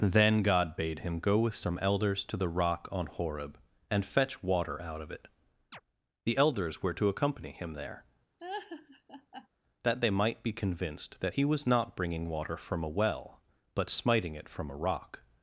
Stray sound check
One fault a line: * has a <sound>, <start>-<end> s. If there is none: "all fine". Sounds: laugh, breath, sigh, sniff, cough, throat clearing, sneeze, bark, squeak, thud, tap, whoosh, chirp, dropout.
* has a chirp, 5.7-5.8 s
* has a laugh, 8.4-9.5 s